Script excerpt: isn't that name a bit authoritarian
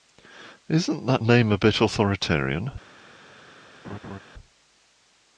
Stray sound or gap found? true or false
true